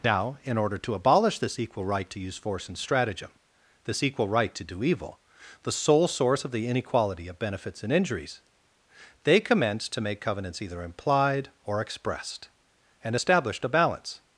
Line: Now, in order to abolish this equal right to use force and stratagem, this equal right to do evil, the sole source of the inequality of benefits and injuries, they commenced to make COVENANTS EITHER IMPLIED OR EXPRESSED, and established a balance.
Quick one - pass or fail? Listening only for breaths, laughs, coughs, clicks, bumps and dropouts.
pass